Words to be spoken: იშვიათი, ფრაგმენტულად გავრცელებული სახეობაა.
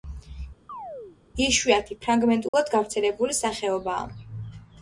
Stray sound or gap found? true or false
true